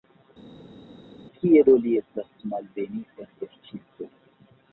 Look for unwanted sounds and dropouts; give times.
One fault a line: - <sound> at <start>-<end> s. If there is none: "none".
none